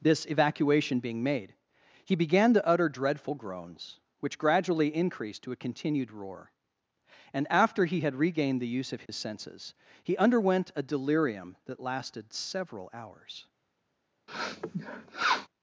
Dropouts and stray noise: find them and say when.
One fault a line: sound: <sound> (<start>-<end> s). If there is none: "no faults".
sound: dropout (9.1-9.1 s)
sound: sniff (14.3-15.5 s)